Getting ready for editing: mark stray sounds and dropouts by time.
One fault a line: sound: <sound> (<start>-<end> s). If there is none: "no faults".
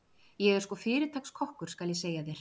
no faults